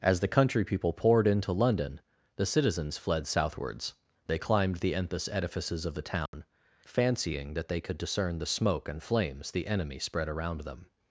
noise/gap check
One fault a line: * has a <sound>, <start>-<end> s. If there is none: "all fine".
* has a dropout, 6.3-6.3 s